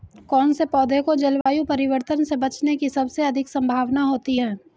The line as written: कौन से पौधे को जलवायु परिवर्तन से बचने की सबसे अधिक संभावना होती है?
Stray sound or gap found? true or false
true